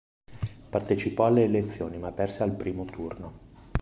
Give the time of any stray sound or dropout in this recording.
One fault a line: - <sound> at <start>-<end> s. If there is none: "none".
none